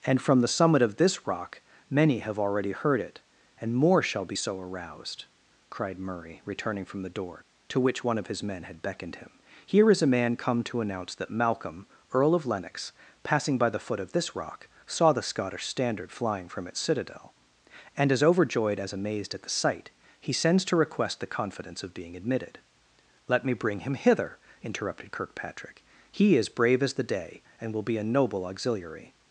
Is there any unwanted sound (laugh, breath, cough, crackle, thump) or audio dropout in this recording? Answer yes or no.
no